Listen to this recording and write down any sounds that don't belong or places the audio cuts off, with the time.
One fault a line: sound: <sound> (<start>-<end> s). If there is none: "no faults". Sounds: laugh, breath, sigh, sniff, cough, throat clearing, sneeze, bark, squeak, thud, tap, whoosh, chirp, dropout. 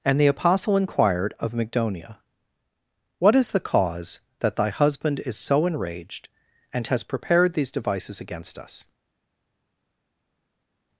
no faults